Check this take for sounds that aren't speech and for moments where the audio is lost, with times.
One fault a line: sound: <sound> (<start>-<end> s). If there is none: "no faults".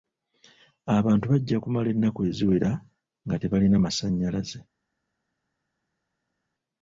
no faults